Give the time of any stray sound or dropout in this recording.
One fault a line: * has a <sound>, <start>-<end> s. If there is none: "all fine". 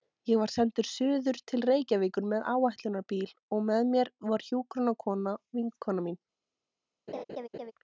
* has a laugh, 7.1-7.7 s